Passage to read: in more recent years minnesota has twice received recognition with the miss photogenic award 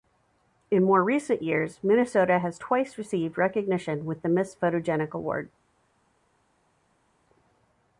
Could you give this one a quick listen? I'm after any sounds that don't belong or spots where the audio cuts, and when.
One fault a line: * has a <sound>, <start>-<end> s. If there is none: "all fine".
all fine